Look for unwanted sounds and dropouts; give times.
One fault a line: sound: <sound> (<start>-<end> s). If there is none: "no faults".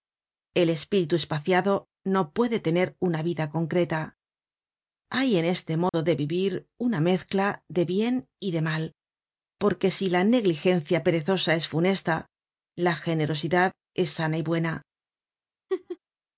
sound: dropout (5.9-5.9 s)
sound: laugh (15.7-16.0 s)